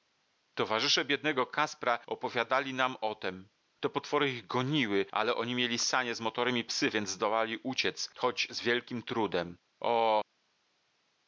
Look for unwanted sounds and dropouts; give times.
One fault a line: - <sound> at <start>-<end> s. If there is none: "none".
none